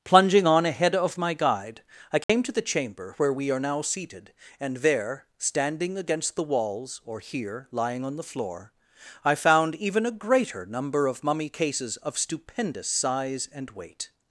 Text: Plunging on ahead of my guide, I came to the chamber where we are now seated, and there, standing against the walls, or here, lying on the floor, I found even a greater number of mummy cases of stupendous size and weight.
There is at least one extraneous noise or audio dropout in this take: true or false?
true